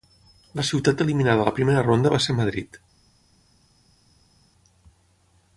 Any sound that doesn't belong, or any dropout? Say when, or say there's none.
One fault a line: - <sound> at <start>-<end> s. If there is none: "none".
none